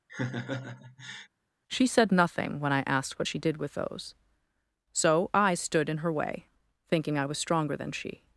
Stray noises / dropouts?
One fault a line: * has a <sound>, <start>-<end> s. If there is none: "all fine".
* has a laugh, 0.1-1.3 s